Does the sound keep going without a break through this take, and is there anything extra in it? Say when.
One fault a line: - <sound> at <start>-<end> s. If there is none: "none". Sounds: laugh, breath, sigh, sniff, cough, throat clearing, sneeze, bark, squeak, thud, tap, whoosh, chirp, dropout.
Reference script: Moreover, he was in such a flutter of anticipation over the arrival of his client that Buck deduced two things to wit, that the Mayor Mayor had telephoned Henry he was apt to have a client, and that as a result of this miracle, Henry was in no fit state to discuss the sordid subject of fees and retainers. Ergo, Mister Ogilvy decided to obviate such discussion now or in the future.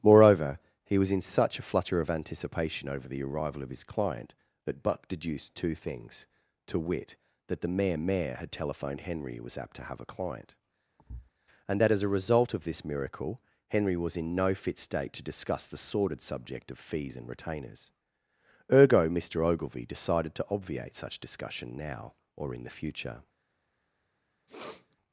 - thud at 11.0-11.3 s
- sniff at 24.5-25.0 s